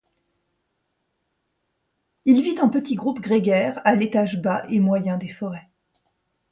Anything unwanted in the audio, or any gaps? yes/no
no